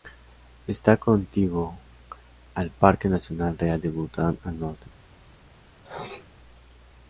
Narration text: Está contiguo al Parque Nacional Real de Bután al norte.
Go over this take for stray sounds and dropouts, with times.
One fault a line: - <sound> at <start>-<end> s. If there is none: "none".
- sneeze at 5.8-6.3 s